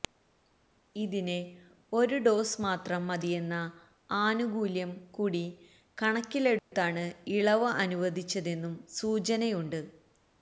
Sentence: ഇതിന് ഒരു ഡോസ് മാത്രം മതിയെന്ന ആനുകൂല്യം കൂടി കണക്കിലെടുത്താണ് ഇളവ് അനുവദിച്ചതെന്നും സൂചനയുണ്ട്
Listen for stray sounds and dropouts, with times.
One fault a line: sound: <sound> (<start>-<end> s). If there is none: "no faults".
sound: dropout (6.6-6.7 s)